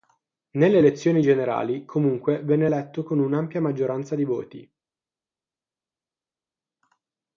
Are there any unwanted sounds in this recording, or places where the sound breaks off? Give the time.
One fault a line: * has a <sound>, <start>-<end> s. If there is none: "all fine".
all fine